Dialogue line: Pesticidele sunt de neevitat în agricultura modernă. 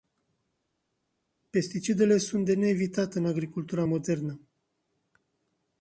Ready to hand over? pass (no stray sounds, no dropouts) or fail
pass